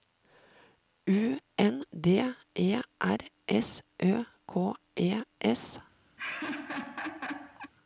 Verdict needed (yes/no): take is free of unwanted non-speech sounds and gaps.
no